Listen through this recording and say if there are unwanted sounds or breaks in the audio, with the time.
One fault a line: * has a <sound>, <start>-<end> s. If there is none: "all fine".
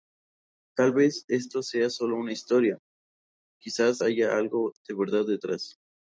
all fine